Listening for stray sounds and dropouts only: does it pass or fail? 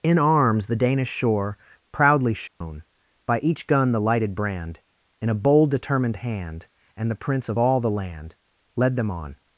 fail